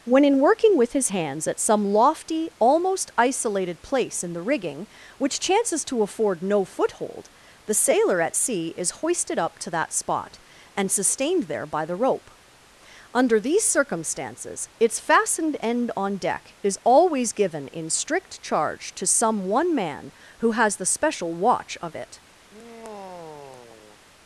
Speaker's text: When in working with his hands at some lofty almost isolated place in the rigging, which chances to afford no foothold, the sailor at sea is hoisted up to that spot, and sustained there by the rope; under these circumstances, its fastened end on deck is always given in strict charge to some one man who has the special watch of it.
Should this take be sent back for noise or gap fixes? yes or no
yes